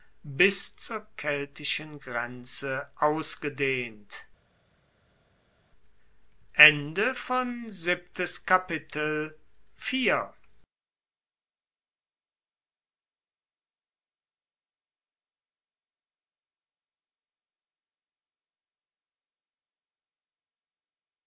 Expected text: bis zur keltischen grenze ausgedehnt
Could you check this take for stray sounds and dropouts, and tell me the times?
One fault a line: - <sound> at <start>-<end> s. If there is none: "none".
none